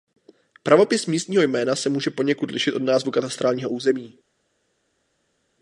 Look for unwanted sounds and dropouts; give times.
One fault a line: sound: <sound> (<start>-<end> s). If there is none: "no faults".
no faults